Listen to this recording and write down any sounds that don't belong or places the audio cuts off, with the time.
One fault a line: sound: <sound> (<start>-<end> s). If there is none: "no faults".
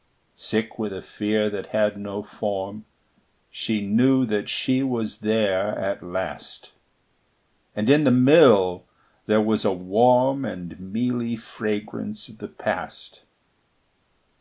no faults